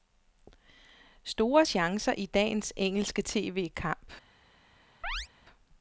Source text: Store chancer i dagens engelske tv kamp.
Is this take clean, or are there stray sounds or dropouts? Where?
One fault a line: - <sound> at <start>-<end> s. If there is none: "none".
- chirp at 5.0-5.3 s